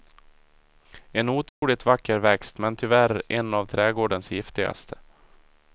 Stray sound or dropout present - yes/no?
yes